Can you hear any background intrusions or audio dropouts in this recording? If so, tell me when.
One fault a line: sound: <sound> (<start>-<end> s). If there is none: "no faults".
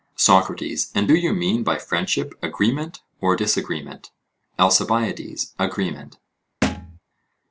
sound: thud (6.6-7.0 s)